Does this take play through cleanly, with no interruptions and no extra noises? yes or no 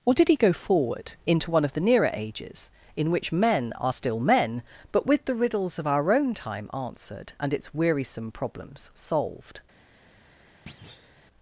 no